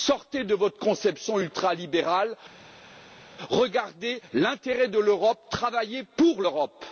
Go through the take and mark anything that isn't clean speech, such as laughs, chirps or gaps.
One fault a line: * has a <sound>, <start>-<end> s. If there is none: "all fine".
all fine